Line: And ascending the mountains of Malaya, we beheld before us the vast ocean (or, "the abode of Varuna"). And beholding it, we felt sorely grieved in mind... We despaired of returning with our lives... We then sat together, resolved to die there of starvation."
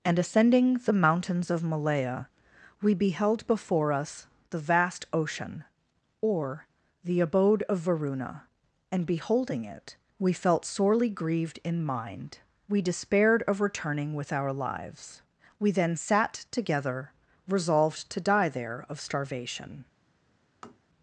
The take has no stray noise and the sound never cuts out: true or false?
false